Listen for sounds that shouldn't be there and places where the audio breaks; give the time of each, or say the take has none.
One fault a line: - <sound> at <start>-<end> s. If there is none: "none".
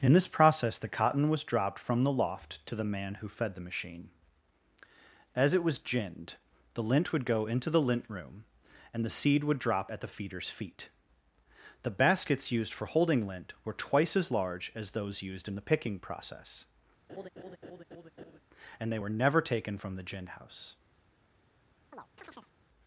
- laugh at 17.1-18.4 s
- chirp at 21.9-22.5 s